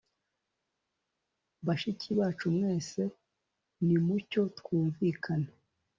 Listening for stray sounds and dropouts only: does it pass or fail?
pass